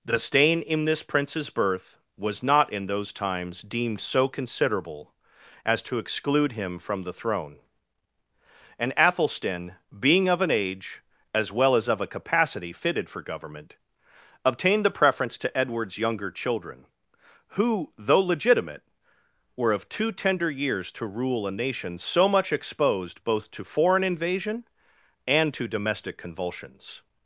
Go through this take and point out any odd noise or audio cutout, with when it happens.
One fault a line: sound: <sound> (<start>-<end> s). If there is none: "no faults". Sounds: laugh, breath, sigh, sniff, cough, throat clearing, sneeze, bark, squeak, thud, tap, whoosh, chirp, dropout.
no faults